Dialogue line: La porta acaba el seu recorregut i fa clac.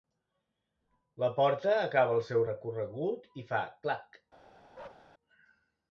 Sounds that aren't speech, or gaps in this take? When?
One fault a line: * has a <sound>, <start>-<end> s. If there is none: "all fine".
* has a bark, 4.7-5.1 s